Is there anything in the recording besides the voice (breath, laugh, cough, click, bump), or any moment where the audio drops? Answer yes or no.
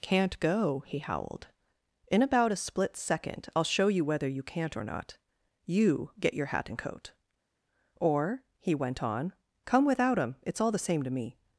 no